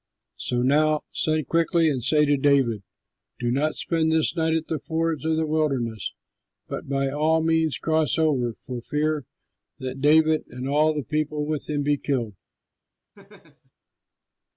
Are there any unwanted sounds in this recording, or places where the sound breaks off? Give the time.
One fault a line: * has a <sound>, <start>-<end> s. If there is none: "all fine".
* has a laugh, 13.1-13.7 s